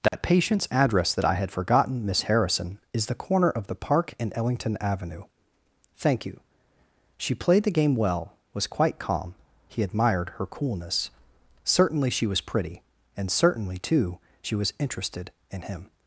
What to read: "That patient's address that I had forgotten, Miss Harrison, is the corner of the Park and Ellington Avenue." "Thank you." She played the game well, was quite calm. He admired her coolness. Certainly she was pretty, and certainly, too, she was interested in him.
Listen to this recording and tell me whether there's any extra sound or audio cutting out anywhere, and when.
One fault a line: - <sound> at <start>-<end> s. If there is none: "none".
- dropout at 0.1-0.1 s